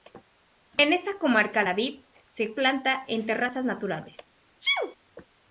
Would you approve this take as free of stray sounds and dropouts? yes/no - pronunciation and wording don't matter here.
no